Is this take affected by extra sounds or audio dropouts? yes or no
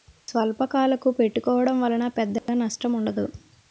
yes